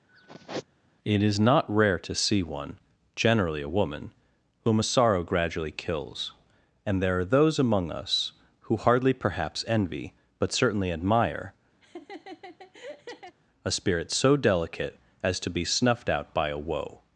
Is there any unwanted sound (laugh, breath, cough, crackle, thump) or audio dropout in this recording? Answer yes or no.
yes